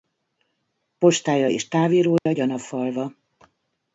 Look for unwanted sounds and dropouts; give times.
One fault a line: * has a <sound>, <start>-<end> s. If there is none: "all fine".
* has a dropout, 2.2-2.3 s